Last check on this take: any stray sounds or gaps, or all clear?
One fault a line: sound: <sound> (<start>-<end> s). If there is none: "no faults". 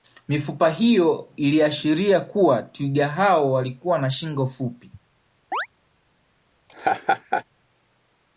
sound: chirp (5.5-5.7 s)
sound: laugh (6.7-7.4 s)